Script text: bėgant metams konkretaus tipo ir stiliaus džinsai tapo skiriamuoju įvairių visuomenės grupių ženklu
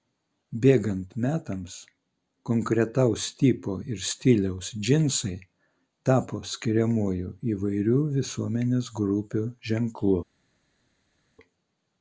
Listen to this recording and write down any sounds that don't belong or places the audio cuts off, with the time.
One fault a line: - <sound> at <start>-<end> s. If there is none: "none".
none